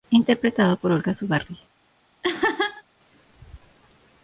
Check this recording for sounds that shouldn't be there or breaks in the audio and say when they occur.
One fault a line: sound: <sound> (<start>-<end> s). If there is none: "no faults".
sound: laugh (2.2-2.8 s)